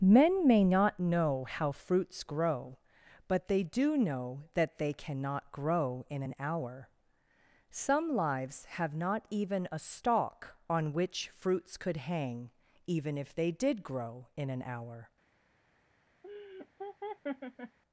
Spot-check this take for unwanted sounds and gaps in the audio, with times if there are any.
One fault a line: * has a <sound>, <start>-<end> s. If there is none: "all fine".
* has a laugh, 16.2-17.8 s